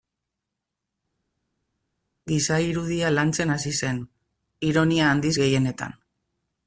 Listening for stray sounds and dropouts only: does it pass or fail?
pass